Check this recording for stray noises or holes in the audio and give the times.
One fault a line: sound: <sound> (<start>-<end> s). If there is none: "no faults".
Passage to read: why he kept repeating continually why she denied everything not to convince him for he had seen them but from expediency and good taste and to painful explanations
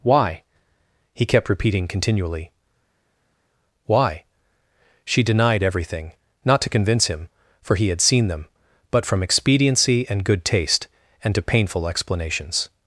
no faults